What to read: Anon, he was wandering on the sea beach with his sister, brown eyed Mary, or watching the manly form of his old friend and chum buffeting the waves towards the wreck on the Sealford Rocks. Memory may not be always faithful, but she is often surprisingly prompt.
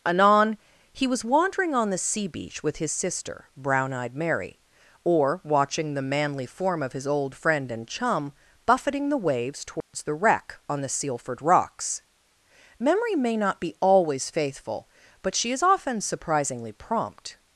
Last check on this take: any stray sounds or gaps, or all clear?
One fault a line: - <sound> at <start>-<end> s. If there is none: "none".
- dropout at 9.8-9.9 s